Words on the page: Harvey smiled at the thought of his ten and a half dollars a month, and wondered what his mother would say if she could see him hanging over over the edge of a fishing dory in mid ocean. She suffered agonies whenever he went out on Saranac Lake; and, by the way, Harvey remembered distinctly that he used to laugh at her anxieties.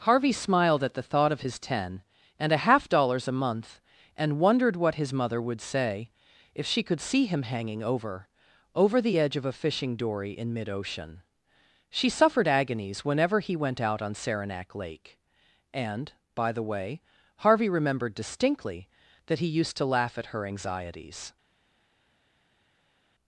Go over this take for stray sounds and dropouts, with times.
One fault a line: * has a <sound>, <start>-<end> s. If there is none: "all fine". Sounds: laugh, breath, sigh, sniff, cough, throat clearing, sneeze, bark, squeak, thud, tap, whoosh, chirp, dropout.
all fine